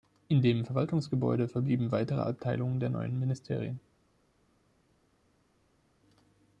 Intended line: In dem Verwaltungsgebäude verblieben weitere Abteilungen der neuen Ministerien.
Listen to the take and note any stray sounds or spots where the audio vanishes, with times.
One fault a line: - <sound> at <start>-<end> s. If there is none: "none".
none